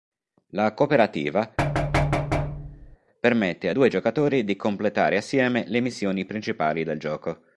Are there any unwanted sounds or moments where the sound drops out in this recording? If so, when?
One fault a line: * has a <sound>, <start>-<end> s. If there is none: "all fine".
* has a thud, 1.6-3.0 s